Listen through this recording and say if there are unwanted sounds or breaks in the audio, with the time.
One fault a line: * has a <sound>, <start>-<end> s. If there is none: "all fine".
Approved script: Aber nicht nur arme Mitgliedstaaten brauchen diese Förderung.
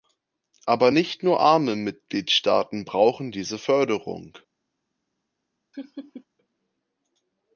* has a laugh, 5.7-6.3 s